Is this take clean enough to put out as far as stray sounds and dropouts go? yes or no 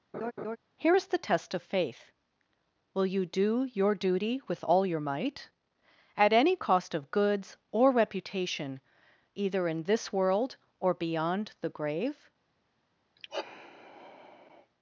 no